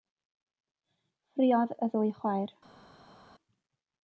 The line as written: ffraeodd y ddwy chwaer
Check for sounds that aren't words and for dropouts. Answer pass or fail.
pass